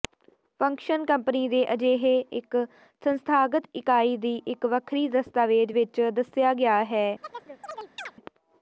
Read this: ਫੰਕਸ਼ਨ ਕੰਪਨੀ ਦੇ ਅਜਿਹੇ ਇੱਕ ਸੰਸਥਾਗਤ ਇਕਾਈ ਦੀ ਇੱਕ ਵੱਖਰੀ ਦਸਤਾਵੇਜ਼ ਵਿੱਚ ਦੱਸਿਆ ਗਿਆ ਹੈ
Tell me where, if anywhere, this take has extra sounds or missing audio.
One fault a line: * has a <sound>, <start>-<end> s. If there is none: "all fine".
* has a chirp, 7.2-8.1 s